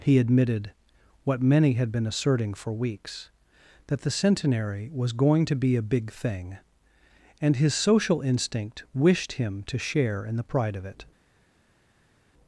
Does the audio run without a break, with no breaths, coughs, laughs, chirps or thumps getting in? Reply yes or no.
yes